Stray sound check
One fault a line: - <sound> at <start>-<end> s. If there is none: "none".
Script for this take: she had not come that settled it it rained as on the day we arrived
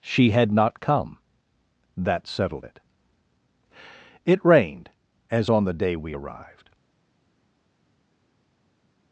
none